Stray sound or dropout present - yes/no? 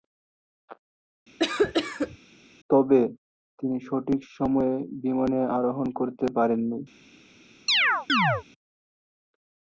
yes